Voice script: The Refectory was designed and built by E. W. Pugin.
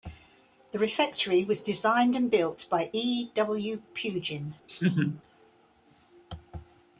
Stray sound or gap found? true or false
true